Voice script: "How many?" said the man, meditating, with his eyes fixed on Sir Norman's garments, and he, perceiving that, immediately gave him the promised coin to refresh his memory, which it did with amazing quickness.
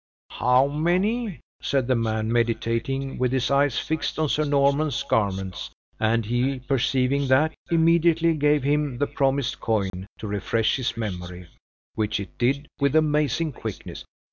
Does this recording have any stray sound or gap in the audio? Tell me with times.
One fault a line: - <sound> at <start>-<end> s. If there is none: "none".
- dropout at 9.9-9.9 s